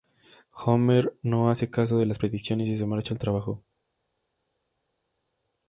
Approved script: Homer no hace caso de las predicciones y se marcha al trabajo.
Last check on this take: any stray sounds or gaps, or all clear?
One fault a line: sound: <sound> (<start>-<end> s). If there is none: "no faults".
no faults